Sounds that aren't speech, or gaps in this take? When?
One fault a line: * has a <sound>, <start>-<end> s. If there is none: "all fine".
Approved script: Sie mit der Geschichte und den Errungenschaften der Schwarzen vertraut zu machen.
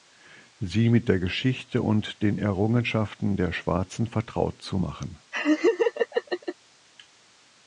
* has a laugh, 5.3-6.6 s